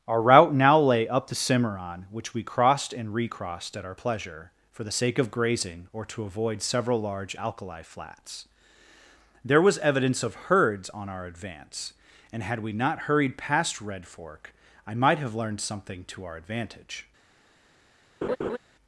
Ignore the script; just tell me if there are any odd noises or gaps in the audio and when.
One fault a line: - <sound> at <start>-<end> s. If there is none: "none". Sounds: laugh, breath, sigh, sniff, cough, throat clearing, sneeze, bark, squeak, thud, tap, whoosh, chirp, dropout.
- laugh at 18.2-18.6 s